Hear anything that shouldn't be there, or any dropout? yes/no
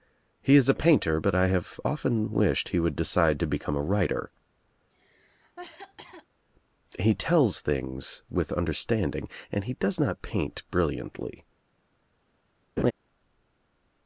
yes